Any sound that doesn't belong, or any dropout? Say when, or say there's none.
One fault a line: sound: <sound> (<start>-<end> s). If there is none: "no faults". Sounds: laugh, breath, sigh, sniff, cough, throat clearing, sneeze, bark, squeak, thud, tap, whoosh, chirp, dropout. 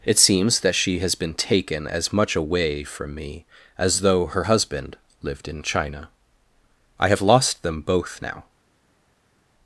no faults